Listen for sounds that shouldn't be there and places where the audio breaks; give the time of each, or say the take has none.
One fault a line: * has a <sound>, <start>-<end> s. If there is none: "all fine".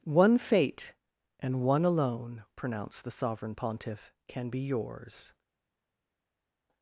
all fine